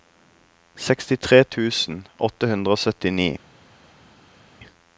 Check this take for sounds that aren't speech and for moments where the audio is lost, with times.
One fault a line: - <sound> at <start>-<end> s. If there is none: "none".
none